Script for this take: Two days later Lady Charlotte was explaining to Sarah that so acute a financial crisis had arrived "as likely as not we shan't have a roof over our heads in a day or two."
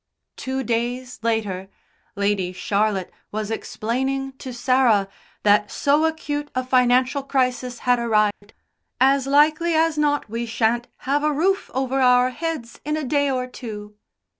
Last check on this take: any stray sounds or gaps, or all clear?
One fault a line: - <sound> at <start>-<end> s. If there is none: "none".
- dropout at 8.3-8.4 s